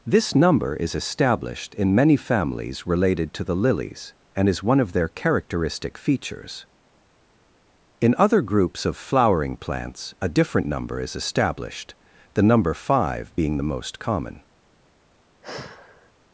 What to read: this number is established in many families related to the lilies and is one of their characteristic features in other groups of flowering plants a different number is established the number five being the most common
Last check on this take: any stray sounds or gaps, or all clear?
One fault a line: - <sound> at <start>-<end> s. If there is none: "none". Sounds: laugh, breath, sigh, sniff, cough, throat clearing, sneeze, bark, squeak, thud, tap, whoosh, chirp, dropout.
- sigh at 15.4-16.1 s